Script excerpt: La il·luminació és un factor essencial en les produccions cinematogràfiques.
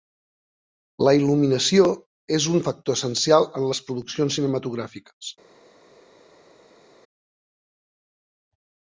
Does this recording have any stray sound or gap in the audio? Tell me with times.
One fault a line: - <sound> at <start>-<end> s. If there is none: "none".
none